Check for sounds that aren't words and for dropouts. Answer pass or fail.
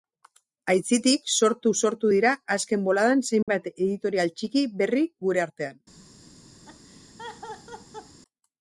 fail